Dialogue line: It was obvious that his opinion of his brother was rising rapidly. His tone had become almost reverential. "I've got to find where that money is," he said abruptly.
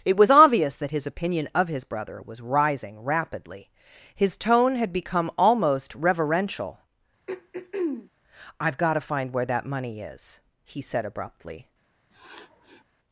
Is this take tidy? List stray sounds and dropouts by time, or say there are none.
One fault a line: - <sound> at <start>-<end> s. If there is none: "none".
- throat clearing at 7.3-8.1 s
- sniff at 12.1-12.8 s